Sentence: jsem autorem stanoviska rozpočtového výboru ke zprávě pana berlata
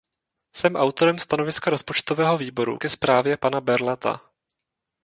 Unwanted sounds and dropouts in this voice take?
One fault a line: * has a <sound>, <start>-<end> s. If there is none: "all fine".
all fine